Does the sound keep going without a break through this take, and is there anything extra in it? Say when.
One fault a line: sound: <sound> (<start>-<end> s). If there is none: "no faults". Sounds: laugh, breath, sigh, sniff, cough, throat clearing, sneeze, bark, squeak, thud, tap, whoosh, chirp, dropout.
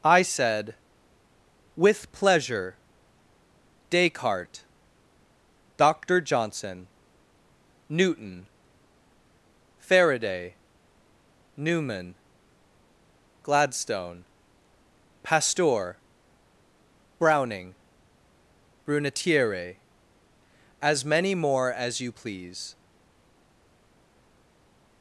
no faults